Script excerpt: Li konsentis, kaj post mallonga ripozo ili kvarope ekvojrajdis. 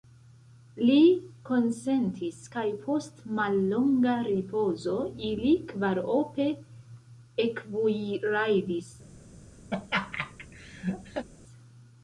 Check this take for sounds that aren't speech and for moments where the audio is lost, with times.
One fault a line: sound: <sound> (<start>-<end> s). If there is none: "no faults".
sound: laugh (9.7-11.3 s)